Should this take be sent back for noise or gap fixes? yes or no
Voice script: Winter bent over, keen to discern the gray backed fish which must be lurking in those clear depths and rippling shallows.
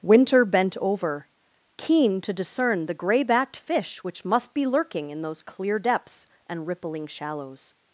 no